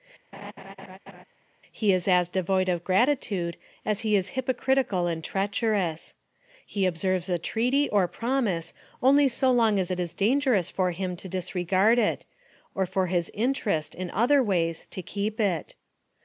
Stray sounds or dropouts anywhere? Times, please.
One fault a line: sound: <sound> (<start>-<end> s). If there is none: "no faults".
sound: laugh (0.3-1.2 s)